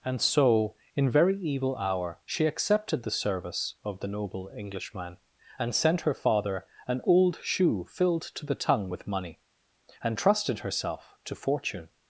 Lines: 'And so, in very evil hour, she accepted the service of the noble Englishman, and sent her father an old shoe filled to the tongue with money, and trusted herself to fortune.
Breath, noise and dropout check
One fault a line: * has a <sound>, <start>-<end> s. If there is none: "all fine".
all fine